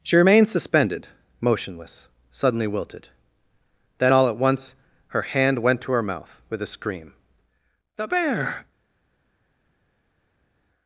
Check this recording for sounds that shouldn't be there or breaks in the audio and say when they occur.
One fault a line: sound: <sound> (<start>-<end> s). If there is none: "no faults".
no faults